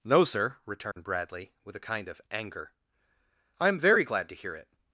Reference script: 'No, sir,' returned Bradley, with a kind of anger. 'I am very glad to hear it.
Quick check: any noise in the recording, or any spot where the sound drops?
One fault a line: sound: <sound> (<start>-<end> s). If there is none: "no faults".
sound: dropout (0.9-1.0 s)